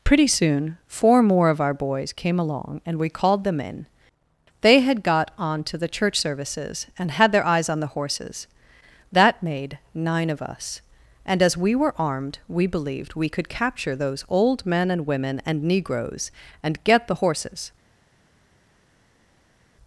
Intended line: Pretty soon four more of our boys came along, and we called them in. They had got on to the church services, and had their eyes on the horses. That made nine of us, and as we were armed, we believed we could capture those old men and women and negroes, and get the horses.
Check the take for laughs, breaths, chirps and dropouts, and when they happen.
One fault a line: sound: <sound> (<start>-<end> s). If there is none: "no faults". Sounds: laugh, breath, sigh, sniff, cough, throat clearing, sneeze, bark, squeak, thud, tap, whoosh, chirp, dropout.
no faults